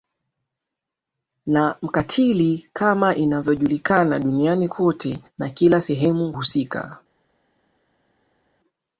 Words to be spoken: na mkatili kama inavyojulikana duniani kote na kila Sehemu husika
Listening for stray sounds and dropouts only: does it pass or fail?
pass